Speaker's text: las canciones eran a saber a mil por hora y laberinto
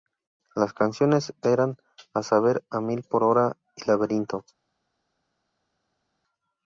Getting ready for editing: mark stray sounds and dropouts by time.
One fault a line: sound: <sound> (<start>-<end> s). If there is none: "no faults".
no faults